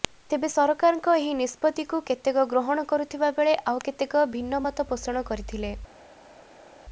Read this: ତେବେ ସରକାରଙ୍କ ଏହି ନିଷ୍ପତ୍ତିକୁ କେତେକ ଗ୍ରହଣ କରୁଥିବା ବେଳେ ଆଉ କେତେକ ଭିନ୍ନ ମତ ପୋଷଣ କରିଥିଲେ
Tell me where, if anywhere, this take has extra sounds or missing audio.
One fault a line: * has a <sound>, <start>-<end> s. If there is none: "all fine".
all fine